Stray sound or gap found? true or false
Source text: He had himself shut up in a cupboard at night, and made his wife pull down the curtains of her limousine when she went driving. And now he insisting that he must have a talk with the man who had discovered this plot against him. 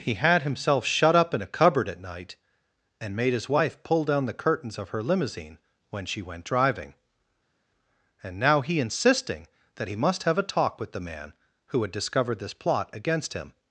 false